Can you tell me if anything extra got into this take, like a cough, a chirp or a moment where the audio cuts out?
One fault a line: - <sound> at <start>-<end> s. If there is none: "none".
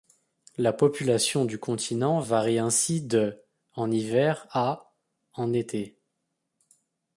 none